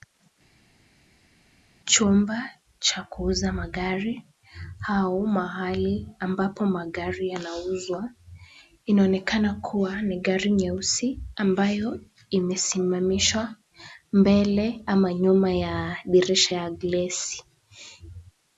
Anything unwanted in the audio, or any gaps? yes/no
no